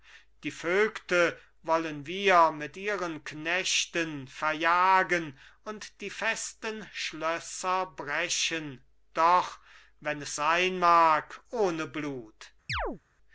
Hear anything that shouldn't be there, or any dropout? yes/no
yes